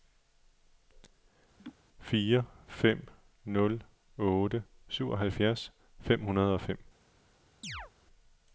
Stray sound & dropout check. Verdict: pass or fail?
fail